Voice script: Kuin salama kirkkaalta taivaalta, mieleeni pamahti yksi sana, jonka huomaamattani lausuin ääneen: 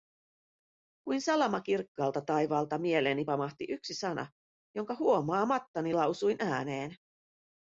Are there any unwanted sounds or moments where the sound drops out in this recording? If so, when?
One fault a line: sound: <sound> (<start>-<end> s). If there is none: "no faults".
no faults